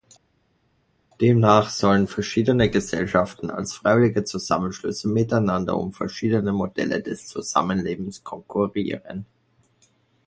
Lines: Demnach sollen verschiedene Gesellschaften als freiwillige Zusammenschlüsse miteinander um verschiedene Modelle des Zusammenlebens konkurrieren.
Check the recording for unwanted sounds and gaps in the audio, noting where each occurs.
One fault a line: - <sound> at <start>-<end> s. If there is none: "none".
none